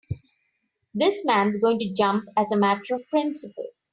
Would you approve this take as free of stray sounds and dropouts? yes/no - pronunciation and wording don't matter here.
yes